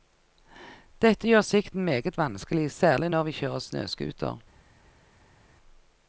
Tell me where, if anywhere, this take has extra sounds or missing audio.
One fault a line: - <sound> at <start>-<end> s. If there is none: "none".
none